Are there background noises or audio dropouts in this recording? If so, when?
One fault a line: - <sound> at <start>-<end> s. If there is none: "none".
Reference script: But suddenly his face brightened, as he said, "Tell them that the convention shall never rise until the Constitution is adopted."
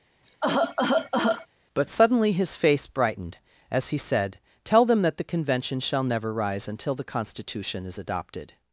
- cough at 0.2-1.5 s